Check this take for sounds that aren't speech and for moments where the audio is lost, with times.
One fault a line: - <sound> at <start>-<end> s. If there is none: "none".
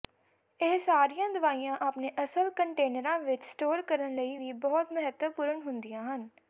none